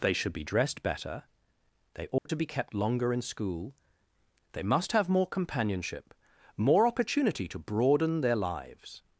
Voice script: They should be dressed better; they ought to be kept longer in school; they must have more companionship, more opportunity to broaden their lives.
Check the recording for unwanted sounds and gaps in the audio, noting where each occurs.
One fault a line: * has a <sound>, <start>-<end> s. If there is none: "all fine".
* has a dropout, 2.2-2.3 s